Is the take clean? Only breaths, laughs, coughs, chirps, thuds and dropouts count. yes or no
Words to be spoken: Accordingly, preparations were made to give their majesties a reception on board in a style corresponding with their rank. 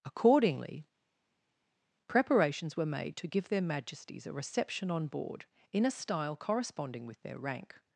yes